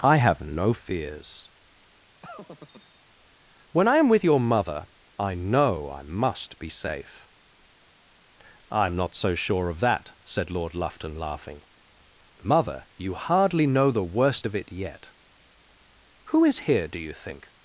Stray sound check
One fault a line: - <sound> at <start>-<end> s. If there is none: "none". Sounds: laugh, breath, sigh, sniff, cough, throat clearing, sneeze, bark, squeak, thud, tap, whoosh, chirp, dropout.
- laugh at 2.2-3.0 s